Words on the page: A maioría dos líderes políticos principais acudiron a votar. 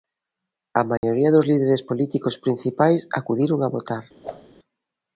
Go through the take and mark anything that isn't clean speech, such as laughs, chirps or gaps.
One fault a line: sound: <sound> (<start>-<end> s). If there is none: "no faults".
sound: dropout (1.0-1.0 s)
sound: whoosh (4.2-4.5 s)